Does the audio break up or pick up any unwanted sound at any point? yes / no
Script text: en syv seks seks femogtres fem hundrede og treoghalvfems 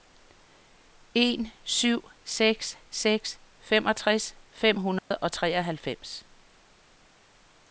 yes